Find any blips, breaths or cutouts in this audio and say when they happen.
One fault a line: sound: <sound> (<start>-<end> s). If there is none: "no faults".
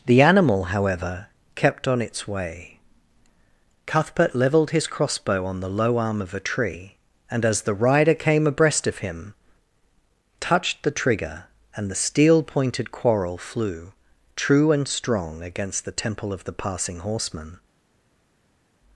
no faults